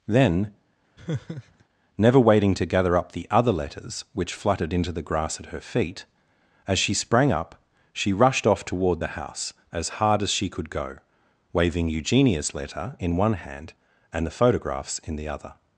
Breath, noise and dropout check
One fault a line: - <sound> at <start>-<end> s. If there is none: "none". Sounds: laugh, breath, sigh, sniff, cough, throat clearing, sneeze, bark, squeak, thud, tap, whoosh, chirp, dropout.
- laugh at 1.0-1.6 s